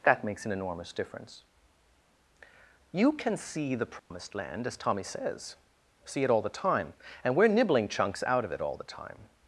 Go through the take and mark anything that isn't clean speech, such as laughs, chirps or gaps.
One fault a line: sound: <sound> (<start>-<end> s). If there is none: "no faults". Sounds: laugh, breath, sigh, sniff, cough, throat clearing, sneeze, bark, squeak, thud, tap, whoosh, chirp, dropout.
sound: dropout (4.0-4.1 s)